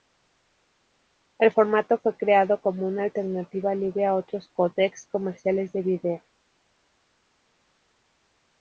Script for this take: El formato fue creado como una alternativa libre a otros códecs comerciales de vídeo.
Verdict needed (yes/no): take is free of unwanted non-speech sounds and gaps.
yes